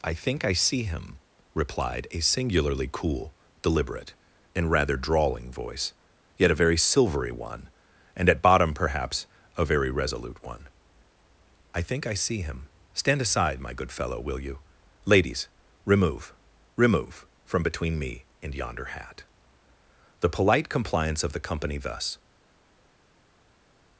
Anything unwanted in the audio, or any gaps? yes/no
no